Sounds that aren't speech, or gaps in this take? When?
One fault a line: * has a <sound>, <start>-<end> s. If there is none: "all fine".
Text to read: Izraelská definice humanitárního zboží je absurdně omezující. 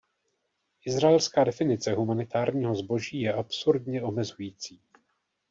all fine